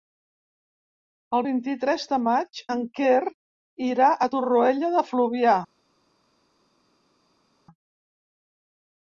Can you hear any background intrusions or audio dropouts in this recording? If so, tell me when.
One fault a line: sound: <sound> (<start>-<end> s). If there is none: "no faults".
no faults